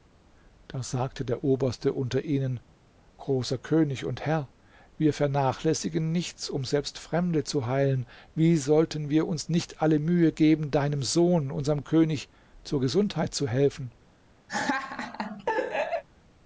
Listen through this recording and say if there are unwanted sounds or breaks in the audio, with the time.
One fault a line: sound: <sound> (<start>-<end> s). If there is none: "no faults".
sound: laugh (14.5-16.0 s)